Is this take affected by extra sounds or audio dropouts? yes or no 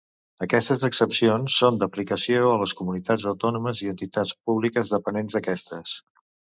no